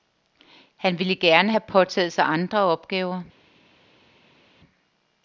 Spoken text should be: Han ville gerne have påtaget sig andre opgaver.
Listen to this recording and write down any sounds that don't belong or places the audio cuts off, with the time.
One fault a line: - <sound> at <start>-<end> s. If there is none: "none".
none